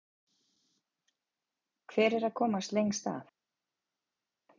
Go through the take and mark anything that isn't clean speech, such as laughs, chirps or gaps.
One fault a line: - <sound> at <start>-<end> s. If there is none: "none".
none